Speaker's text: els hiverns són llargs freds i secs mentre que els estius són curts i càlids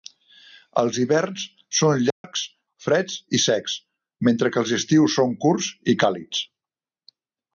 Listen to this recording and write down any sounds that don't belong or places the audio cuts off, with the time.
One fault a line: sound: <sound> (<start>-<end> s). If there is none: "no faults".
sound: dropout (2.1-2.2 s)